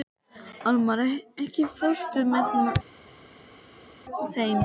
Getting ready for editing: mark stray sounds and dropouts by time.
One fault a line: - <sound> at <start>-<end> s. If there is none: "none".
none